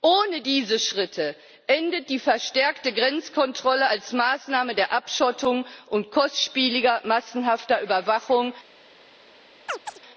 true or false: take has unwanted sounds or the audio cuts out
true